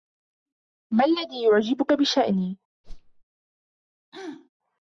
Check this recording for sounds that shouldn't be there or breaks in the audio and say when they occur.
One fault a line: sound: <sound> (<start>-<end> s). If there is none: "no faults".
sound: whoosh (2.8-3.2 s)
sound: throat clearing (4.1-4.5 s)